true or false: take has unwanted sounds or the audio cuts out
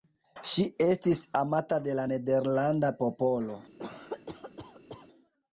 true